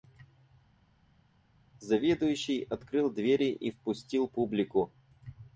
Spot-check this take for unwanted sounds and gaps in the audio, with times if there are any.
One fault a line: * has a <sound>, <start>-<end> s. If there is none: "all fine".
all fine